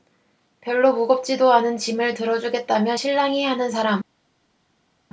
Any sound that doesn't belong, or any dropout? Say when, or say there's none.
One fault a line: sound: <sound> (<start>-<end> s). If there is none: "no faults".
no faults